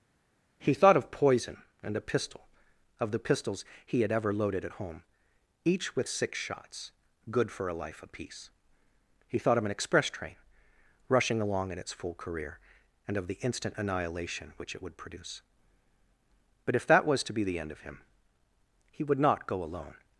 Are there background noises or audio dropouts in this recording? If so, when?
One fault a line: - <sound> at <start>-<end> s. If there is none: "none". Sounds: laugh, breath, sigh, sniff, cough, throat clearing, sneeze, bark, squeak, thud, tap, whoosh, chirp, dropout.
none